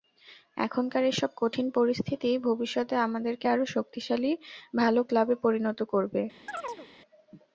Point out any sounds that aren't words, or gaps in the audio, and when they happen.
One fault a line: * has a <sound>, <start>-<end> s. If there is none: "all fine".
* has a chirp, 6.5-6.9 s